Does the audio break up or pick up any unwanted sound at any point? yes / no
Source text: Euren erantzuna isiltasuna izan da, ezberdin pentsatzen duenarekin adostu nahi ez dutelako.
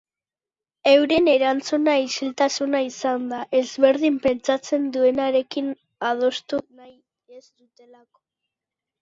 no